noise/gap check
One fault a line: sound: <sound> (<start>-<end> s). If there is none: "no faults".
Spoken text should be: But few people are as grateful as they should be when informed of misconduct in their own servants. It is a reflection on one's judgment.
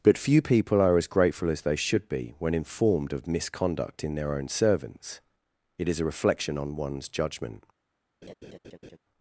sound: laugh (8.2-9.0 s)